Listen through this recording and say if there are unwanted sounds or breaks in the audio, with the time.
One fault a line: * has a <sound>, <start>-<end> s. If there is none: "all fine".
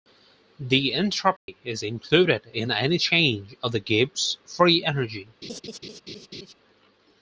* has a dropout, 1.4-1.5 s
* has a laugh, 5.4-6.5 s